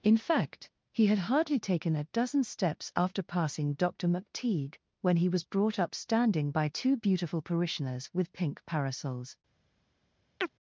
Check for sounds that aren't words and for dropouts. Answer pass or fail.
fail